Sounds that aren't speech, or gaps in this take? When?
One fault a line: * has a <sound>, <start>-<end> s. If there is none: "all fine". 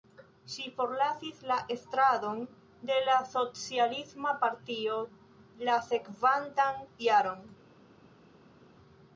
all fine